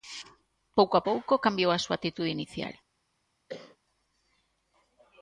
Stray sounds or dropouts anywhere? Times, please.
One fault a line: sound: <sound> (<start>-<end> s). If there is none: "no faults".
sound: cough (3.5-3.8 s)